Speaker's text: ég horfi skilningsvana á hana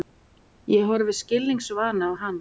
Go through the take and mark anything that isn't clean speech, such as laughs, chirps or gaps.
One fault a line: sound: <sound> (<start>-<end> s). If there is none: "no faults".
no faults